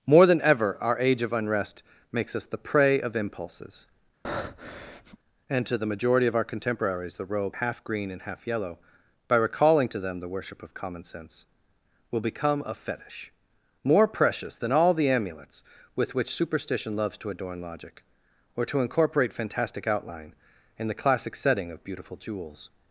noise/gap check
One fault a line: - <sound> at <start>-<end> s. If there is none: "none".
- breath at 4.2-5.2 s